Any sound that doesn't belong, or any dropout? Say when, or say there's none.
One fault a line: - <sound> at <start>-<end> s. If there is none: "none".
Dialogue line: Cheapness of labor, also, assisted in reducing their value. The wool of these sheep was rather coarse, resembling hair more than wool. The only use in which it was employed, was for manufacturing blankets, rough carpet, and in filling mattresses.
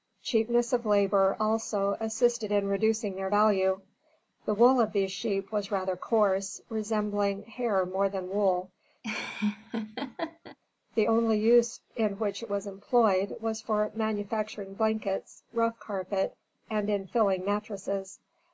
- laugh at 9.0-10.6 s